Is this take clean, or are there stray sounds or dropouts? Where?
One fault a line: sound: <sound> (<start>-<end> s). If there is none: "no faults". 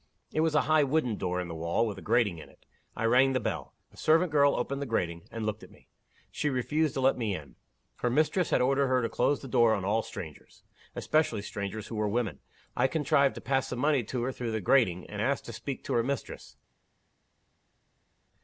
no faults